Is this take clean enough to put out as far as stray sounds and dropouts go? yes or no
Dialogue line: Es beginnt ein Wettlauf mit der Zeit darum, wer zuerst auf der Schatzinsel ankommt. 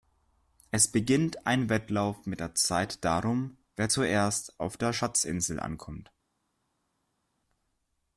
yes